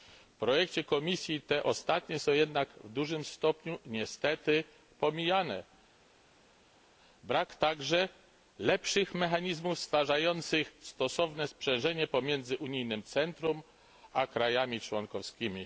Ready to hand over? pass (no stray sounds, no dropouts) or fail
pass